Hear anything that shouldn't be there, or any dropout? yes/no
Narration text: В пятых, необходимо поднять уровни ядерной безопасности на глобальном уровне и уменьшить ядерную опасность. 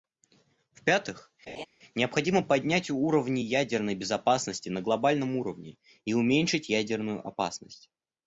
yes